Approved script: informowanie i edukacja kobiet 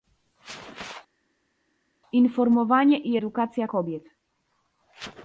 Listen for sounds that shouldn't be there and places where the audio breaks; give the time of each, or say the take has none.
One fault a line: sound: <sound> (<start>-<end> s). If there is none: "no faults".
no faults